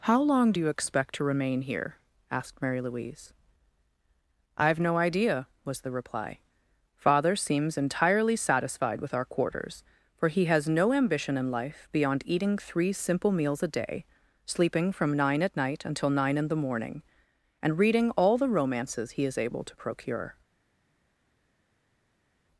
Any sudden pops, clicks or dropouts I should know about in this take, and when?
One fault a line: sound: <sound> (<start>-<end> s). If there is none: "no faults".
no faults